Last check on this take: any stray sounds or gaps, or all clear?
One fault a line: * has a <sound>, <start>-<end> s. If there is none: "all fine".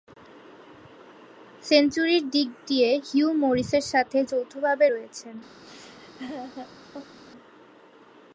* has a laugh, 5.6-7.2 s